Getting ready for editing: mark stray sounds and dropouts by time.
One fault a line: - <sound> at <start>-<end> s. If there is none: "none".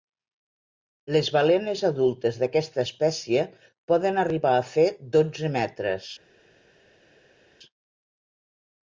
none